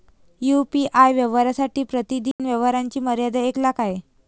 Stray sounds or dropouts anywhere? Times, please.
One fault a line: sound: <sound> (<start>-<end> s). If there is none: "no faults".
sound: dropout (2.3-2.4 s)